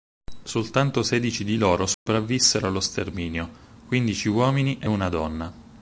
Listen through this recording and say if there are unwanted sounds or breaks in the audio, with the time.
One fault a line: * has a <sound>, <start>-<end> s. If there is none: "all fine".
* has a dropout, 1.9-2.1 s